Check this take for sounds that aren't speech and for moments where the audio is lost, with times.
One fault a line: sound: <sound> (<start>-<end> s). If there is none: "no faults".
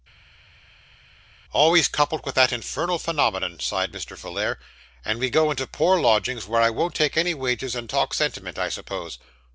no faults